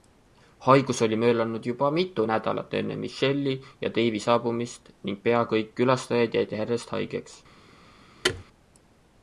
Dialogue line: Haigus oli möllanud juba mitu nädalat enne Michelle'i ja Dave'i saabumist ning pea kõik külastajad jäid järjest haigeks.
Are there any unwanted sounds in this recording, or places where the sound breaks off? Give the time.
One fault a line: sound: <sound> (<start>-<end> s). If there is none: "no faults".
sound: thud (8.2-8.4 s)